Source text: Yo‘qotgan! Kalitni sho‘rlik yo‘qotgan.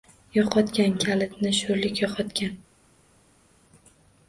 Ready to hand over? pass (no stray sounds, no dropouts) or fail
pass